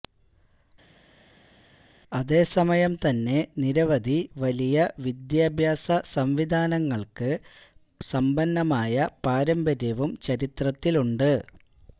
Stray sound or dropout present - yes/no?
no